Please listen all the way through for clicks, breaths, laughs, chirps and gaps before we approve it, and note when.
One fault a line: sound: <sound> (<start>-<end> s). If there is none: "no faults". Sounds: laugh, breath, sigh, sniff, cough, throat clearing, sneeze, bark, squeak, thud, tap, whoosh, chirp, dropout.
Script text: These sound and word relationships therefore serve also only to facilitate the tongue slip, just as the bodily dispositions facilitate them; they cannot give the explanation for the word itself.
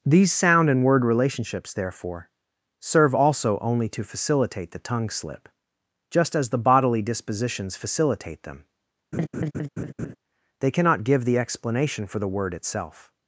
sound: laugh (9.1-10.2 s)